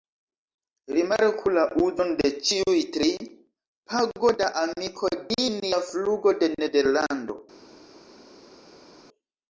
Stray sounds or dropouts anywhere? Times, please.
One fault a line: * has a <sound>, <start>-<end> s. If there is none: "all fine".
all fine